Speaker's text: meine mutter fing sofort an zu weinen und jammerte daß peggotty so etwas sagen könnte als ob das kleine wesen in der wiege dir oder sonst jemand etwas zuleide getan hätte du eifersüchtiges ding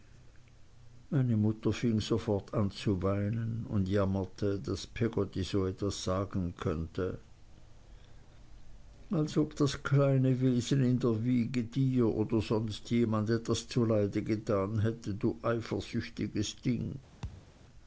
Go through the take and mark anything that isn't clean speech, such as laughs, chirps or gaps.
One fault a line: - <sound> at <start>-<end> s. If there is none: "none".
- thud at 17.2-17.5 s